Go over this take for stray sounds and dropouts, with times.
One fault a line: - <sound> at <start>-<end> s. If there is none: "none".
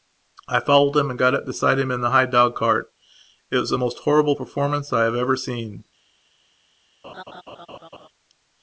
- laugh at 7.0-8.1 s